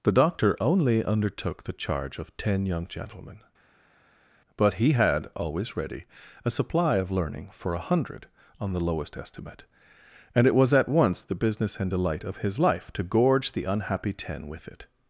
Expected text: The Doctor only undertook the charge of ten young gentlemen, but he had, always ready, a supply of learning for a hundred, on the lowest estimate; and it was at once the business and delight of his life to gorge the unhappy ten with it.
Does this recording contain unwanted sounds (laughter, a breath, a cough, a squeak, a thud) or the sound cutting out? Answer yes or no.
no